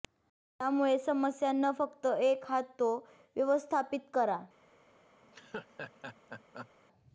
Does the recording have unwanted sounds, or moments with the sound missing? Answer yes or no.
yes